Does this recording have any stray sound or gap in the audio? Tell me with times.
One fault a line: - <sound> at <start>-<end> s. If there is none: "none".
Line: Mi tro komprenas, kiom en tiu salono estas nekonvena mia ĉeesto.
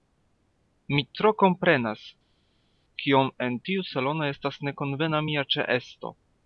none